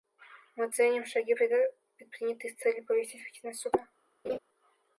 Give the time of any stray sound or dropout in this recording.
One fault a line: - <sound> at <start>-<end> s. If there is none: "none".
- laugh at 4.2-4.4 s